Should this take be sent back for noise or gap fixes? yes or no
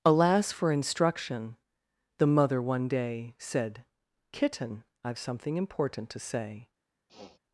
yes